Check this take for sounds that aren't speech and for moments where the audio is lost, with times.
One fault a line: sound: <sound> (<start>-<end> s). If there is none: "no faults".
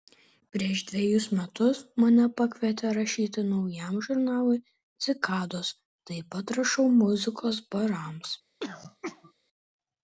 sound: throat clearing (8.6-9.3 s)